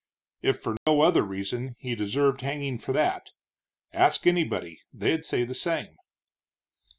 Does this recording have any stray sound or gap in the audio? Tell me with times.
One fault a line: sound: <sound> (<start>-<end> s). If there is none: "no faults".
sound: dropout (0.8-0.9 s)